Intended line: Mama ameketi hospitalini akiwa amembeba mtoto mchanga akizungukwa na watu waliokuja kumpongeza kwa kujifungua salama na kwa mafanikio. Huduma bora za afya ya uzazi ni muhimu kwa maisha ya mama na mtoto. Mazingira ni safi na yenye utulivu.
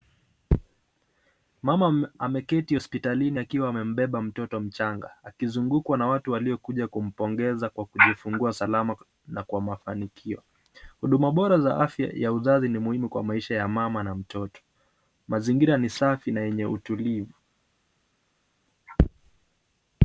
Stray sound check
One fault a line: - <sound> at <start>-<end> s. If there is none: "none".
none